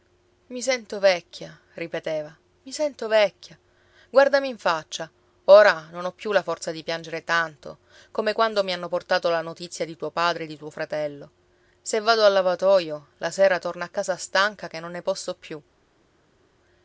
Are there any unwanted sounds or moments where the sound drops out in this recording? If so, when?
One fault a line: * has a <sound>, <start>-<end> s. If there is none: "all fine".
all fine